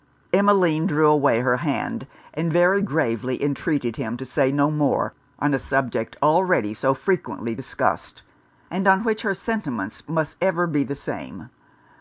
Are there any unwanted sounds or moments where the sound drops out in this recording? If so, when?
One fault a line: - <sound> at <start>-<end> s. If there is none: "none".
none